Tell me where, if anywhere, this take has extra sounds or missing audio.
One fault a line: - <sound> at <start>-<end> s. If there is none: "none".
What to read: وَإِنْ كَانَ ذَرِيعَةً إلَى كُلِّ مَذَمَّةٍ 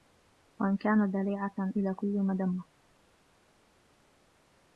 none